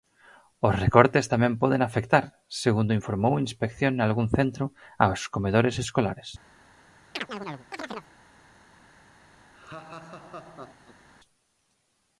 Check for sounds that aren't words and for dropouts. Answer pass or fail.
fail